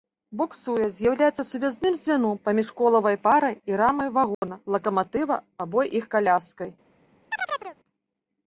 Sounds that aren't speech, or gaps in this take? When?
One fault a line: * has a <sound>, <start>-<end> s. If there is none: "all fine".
* has a dropout, 4.3-4.4 s
* has a chirp, 7.3-7.8 s